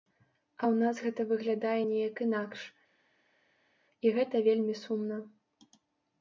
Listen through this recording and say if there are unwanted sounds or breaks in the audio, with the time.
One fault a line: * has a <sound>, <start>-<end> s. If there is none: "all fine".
all fine